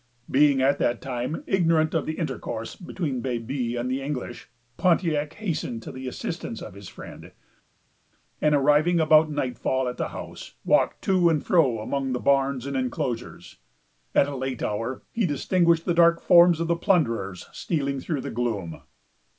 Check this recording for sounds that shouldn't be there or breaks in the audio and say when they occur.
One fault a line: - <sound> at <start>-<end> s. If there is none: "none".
none